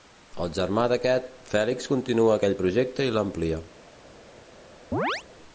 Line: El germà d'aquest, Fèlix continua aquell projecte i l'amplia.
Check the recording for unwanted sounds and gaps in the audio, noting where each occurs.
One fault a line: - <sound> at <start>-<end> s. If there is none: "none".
- chirp at 4.9-5.2 s